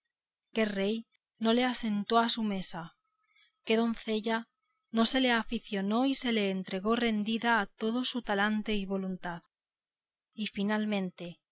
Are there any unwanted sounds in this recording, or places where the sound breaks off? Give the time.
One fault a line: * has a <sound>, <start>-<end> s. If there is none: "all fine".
all fine